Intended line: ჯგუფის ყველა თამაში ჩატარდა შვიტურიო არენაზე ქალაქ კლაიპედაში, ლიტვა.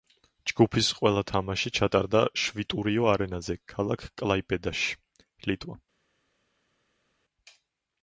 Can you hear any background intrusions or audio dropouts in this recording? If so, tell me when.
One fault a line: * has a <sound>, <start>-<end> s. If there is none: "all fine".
all fine